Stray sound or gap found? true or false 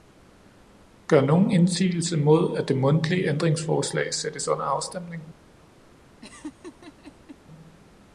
true